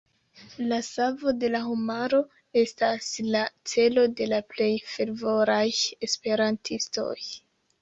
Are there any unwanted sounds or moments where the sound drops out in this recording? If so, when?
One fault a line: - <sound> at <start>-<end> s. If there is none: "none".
none